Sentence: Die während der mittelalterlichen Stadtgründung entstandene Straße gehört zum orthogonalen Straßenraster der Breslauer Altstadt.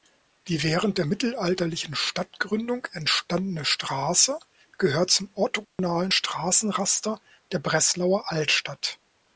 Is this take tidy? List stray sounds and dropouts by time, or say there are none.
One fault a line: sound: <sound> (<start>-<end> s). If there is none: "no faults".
sound: dropout (5.6-5.8 s)